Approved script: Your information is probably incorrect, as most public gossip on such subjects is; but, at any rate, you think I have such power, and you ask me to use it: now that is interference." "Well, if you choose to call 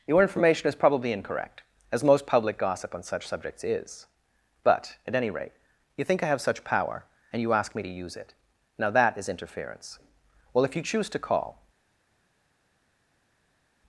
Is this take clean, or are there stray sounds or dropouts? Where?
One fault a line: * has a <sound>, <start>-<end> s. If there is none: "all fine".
all fine